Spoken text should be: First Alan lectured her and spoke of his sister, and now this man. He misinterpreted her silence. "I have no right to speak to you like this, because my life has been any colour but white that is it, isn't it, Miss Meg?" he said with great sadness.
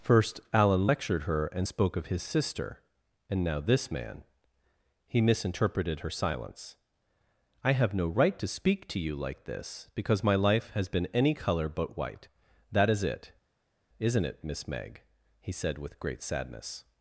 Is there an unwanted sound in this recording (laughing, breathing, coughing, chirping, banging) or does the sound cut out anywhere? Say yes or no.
no